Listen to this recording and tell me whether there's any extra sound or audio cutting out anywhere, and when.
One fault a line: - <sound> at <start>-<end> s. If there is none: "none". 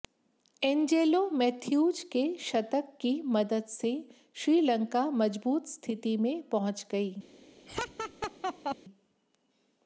- laugh at 7.7-8.8 s